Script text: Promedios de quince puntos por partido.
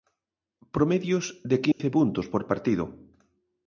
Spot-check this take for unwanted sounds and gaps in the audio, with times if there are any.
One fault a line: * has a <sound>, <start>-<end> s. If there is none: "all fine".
* has a dropout, 1.7-1.8 s